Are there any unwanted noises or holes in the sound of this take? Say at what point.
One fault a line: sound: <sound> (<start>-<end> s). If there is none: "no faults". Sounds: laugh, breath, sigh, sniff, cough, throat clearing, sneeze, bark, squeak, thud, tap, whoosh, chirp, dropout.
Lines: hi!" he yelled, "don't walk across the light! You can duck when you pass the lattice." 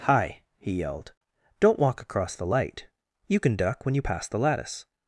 no faults